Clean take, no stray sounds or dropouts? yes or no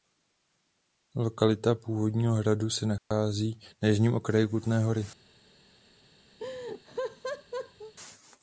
no